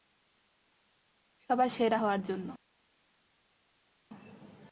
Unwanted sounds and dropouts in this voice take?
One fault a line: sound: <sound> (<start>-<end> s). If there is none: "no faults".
no faults